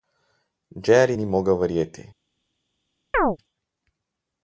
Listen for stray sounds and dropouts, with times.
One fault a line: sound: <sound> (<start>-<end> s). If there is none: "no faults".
sound: chirp (3.1-3.4 s)